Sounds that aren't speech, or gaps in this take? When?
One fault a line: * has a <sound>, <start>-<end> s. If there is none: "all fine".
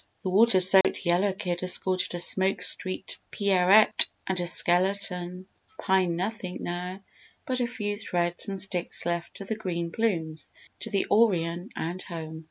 * has a dropout, 0.8-0.8 s